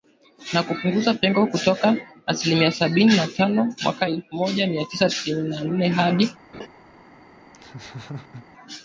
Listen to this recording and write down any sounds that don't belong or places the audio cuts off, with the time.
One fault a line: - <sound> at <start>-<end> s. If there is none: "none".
- laugh at 6.5-6.7 s
- laugh at 7.5-8.4 s